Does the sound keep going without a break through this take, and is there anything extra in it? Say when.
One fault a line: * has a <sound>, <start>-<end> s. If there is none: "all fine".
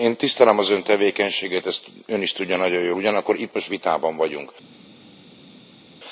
all fine